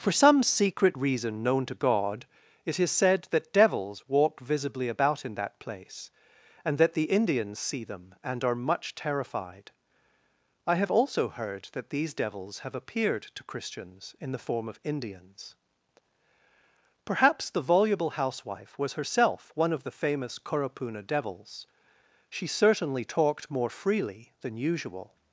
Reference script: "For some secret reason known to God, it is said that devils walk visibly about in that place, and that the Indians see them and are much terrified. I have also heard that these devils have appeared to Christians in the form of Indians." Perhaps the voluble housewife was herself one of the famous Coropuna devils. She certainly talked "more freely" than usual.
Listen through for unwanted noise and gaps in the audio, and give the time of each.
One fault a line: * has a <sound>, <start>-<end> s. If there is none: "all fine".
all fine